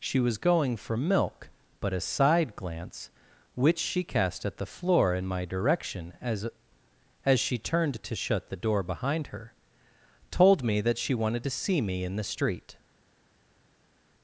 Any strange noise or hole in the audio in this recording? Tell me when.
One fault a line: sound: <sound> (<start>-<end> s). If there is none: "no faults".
no faults